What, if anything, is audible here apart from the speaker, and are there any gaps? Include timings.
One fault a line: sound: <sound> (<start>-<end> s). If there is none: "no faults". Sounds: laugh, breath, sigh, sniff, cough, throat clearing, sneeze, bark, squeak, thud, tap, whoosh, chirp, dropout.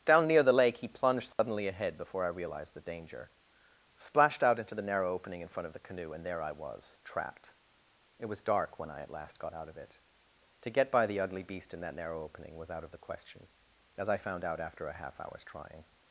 sound: dropout (1.3-1.4 s)